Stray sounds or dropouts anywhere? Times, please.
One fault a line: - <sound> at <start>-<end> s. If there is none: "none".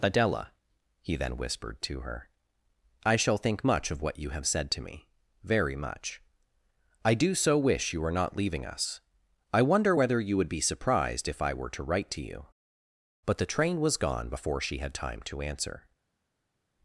none